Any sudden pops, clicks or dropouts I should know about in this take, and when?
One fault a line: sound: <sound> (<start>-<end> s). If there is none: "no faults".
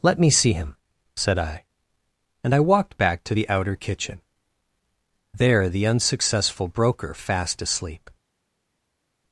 no faults